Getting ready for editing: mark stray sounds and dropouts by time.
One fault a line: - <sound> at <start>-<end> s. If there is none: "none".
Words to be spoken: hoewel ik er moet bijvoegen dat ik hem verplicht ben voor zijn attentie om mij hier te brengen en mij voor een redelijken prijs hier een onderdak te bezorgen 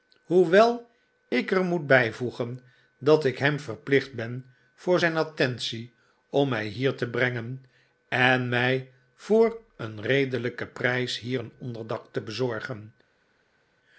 none